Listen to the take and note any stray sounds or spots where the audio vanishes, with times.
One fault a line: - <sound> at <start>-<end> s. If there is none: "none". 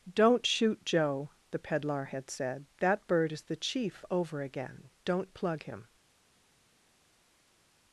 none